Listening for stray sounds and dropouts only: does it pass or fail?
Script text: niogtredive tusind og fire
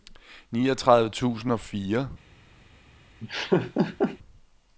fail